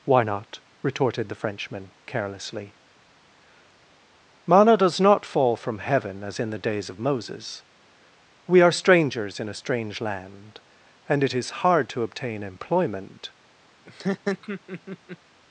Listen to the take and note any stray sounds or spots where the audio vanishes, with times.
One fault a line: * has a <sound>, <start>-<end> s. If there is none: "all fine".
* has a laugh, 13.9-15.2 s